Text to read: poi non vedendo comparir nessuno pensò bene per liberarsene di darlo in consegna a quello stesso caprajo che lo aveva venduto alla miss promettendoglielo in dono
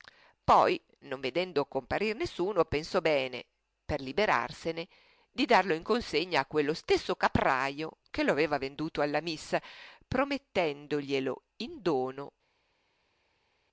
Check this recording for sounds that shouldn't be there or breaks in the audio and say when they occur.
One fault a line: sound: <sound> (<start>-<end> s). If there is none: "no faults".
no faults